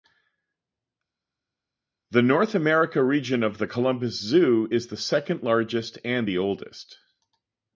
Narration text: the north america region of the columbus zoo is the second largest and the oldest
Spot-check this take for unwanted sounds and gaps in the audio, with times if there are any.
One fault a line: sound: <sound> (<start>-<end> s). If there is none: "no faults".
no faults